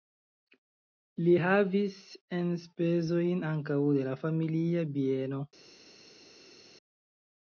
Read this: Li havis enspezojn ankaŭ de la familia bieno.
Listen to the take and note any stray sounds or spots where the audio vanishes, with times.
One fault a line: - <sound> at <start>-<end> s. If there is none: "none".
none